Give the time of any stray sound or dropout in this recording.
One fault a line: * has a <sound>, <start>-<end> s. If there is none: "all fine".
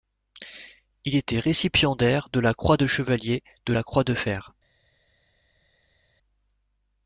all fine